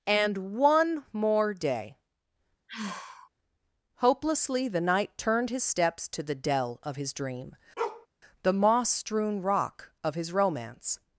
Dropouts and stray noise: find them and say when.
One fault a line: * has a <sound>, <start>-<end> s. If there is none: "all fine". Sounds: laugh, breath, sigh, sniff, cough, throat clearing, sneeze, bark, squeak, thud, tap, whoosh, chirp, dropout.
* has a sigh, 2.7-3.3 s
* has a bark, 7.8-8.1 s